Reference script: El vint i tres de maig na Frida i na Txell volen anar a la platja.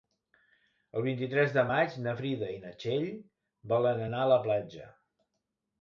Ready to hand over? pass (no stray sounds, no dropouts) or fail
pass